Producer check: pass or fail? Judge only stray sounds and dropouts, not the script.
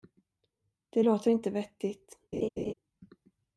fail